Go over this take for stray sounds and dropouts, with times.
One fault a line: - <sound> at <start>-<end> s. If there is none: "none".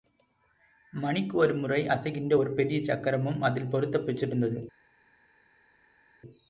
none